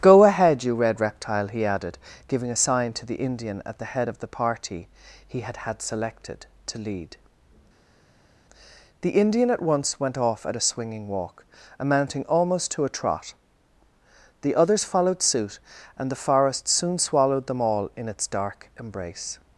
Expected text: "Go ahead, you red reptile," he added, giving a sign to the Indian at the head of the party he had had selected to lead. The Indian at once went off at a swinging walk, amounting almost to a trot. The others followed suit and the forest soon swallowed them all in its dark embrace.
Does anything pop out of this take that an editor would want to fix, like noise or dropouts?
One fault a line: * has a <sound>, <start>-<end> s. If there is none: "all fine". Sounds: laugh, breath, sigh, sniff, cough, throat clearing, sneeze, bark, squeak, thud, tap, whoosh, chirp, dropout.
all fine